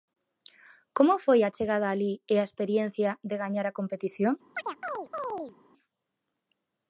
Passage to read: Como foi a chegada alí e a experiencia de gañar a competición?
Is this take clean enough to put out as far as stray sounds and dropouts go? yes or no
no